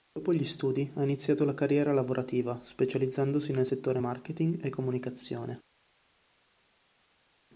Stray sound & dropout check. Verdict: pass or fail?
pass